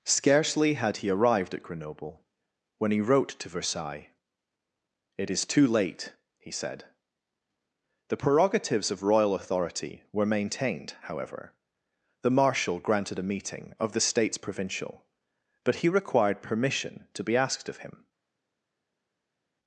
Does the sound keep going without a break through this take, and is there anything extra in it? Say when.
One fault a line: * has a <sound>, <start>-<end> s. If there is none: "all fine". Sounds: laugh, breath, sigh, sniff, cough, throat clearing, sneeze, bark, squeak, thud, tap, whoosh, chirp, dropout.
all fine